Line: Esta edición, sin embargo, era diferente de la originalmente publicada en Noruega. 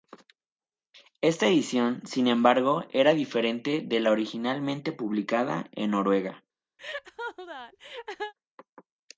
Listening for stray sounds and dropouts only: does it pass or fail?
fail